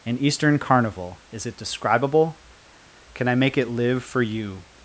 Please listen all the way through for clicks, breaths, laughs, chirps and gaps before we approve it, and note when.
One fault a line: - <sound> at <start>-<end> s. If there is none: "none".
none